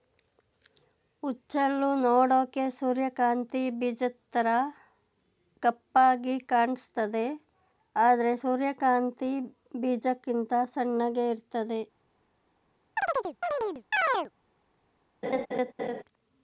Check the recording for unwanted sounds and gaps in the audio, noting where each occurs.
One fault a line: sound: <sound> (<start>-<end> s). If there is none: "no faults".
sound: chirp (13.0-14.3 s)
sound: laugh (15.2-16.0 s)